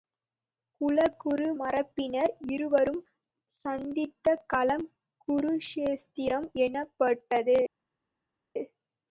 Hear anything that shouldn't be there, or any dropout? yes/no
no